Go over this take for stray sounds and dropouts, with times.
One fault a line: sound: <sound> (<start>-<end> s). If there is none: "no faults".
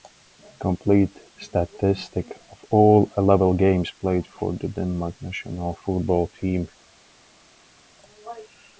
no faults